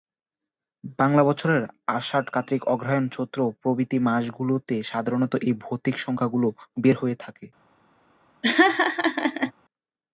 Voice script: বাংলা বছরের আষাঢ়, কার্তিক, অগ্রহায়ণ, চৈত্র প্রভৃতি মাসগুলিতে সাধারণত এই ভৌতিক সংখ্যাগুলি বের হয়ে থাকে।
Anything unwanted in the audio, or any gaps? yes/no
yes